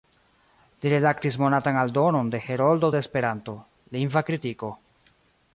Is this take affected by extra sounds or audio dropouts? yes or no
no